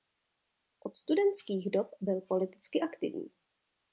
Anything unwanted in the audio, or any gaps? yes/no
no